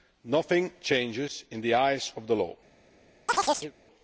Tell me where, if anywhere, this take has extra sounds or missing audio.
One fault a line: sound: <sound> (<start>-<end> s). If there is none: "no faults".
sound: chirp (3.3-3.7 s)